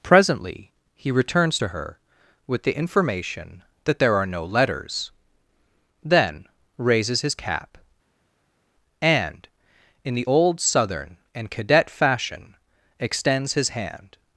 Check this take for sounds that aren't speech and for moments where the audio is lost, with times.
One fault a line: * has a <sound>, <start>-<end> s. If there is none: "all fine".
all fine